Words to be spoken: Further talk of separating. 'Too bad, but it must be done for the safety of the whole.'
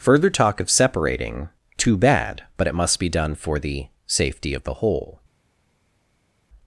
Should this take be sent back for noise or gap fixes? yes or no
no